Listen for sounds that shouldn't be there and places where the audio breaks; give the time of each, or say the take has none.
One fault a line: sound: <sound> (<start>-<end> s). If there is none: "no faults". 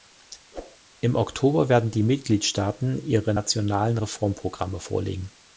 sound: whoosh (0.5-0.8 s)